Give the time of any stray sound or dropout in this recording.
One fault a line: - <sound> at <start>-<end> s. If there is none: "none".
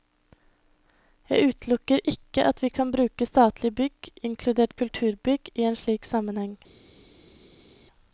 none